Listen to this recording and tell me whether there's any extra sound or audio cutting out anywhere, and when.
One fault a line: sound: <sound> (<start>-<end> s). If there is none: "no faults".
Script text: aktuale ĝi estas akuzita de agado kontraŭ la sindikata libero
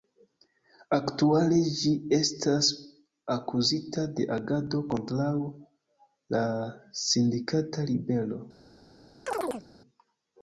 sound: chirp (9.3-9.7 s)